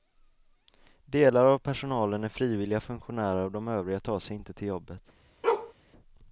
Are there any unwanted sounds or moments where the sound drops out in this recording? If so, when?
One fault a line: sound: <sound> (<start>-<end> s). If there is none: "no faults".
sound: bark (5.4-5.7 s)